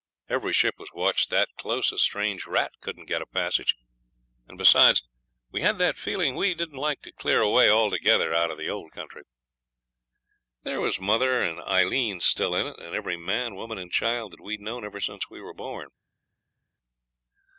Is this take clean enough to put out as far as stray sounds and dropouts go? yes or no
yes